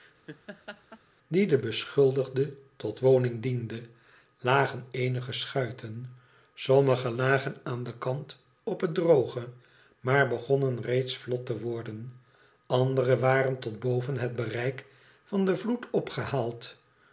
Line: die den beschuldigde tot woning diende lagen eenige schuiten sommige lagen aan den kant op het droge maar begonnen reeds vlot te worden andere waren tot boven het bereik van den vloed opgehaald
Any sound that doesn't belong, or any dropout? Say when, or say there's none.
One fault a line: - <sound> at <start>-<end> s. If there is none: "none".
- laugh at 0.3-1.0 s